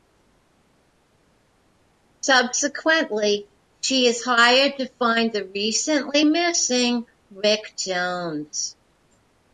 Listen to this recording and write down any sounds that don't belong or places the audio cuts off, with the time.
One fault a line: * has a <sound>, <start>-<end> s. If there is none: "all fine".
all fine